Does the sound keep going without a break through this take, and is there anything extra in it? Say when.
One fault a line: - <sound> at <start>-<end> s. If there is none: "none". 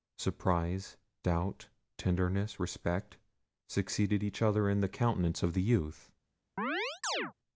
- chirp at 6.6-7.3 s